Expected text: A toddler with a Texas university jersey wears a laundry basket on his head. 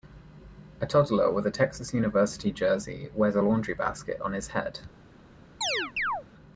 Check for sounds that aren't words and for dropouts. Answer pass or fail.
fail